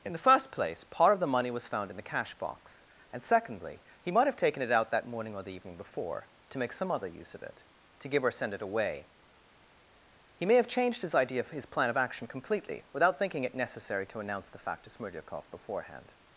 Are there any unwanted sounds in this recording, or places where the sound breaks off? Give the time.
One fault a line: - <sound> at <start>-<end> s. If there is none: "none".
none